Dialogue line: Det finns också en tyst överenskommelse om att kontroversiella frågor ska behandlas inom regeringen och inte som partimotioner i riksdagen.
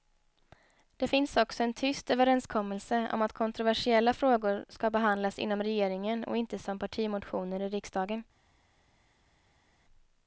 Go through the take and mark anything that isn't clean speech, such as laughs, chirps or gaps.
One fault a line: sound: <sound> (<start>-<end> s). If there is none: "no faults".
no faults